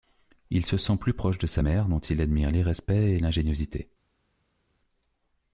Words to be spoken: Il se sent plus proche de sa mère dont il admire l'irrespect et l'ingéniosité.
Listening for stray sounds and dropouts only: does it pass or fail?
pass